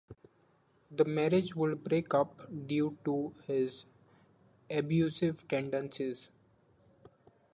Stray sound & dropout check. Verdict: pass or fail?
pass